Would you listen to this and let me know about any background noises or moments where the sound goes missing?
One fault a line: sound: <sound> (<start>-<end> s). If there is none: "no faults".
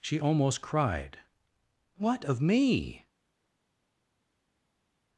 no faults